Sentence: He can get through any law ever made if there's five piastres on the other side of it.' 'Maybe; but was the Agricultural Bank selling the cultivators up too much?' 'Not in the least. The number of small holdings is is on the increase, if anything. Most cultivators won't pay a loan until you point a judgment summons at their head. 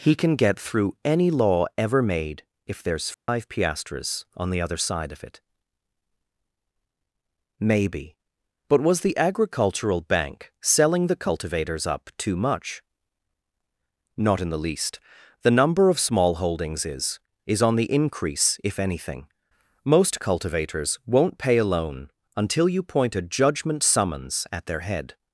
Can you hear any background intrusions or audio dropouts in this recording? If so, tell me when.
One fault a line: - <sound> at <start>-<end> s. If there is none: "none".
- dropout at 3.1-3.3 s